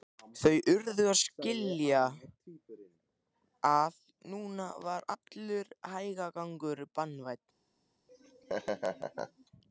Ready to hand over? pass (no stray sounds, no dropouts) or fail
fail